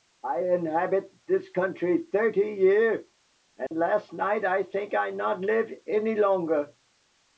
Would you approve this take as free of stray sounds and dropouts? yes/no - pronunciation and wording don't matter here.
no